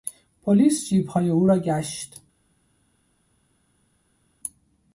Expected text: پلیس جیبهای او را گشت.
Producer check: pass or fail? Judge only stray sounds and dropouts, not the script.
pass